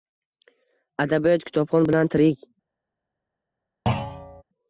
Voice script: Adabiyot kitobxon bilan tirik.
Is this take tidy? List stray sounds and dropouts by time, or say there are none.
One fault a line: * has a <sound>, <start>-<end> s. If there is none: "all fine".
* has a thud, 3.9-4.4 s